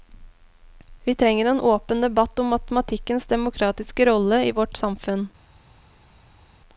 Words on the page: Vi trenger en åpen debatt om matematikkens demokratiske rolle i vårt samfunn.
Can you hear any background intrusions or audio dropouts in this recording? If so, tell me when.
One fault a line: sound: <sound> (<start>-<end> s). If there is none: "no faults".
no faults